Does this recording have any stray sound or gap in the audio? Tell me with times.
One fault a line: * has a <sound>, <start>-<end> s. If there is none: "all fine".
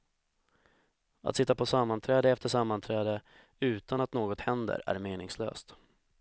all fine